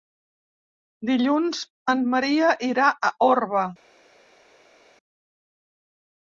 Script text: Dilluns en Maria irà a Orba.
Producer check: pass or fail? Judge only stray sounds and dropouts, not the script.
pass